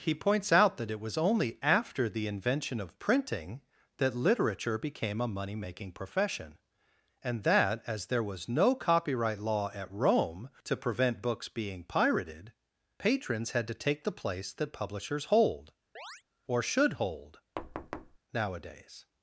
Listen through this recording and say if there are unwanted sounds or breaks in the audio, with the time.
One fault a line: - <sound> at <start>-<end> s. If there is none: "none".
- chirp at 16.0-16.2 s
- thud at 17.6-18.2 s